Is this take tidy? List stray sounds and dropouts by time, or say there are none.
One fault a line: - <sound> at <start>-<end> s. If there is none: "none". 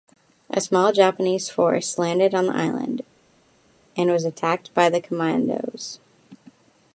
none